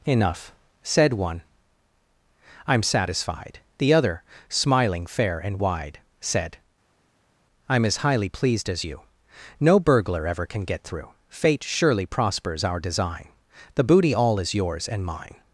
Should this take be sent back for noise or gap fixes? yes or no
no